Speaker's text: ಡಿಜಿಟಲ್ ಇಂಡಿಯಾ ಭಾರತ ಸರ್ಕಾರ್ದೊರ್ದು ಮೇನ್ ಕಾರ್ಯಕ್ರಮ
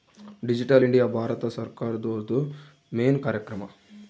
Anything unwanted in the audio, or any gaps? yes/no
no